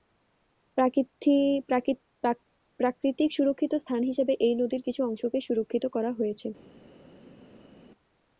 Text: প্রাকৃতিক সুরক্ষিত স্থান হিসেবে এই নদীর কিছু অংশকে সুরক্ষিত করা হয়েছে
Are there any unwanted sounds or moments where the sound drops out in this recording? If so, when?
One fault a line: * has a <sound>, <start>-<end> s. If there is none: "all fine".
all fine